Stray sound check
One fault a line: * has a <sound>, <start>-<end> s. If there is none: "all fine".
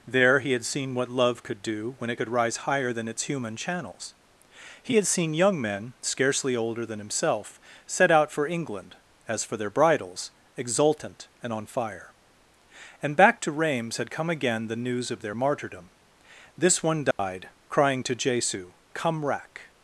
* has a dropout, 17.1-17.2 s